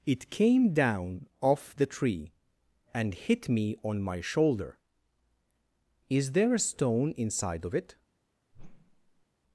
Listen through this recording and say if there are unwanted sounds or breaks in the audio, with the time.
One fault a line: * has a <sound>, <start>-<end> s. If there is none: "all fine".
* has a whoosh, 8.5-9.3 s